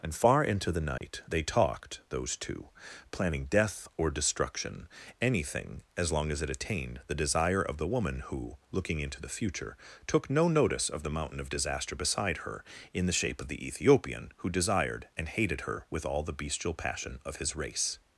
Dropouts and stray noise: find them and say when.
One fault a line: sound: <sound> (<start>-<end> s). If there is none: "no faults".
sound: dropout (1.0-1.0 s)